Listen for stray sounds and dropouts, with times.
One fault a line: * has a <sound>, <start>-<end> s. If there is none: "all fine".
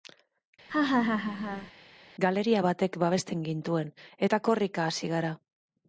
* has a laugh, 0.7-1.7 s